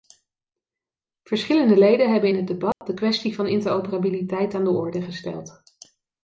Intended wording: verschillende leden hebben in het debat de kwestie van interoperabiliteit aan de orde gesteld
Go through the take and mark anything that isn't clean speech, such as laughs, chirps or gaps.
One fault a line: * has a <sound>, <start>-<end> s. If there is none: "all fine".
* has a dropout, 2.7-2.8 s